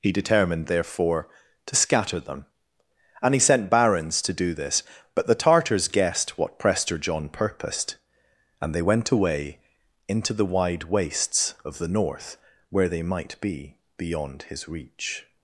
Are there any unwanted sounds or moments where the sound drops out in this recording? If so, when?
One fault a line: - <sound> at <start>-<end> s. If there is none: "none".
none